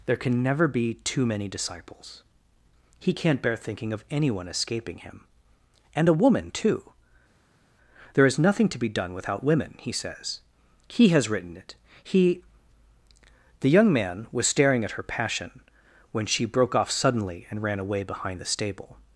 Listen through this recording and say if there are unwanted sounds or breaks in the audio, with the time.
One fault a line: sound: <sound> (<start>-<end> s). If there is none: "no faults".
no faults